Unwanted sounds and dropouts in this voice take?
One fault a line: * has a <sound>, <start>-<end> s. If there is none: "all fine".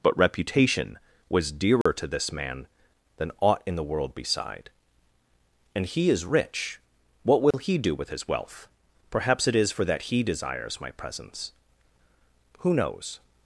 * has a dropout, 1.8-1.9 s
* has a dropout, 7.5-7.5 s